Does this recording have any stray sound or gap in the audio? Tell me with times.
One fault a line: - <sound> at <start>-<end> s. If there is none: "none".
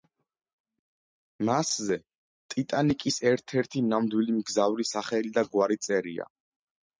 none